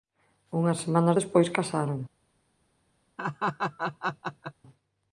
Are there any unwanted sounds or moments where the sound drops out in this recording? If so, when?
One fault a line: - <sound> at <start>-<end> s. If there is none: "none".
- laugh at 3.2-4.5 s